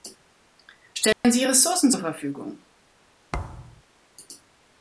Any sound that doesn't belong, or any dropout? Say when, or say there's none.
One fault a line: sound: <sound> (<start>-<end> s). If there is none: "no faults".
sound: dropout (1.1-1.2 s)
sound: thud (3.3-3.8 s)